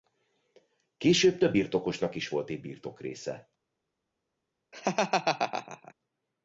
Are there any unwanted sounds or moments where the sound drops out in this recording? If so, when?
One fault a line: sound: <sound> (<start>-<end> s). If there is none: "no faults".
sound: laugh (4.7-5.9 s)